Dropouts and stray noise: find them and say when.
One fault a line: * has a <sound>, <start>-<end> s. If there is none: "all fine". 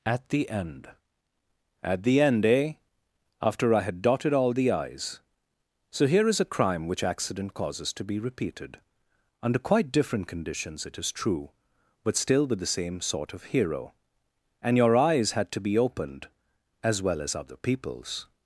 all fine